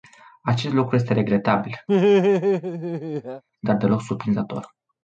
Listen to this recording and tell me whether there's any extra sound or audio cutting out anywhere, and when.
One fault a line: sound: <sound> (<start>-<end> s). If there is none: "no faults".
sound: laugh (1.9-3.4 s)